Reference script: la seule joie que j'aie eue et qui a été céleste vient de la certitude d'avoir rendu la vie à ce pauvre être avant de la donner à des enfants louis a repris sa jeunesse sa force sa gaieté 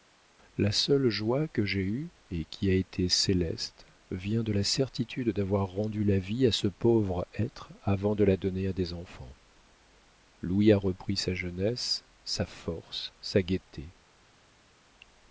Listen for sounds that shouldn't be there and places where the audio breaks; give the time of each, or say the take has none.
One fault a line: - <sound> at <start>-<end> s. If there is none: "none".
none